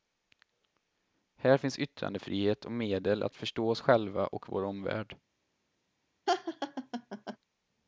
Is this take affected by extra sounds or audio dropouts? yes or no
yes